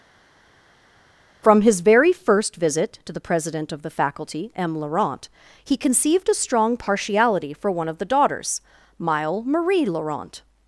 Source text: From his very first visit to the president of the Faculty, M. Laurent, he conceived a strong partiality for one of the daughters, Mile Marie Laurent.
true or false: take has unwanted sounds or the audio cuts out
false